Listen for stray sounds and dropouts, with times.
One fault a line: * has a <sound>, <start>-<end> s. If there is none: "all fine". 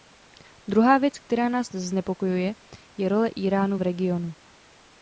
all fine